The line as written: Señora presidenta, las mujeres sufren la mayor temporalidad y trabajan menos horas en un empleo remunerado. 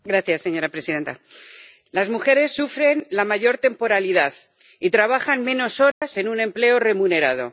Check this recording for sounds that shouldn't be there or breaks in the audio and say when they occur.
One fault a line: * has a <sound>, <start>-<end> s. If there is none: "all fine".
* has a dropout, 5.9-6.0 s